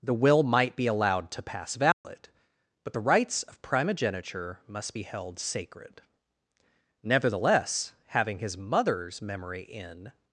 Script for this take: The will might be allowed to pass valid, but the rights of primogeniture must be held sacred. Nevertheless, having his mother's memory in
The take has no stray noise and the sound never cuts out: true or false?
false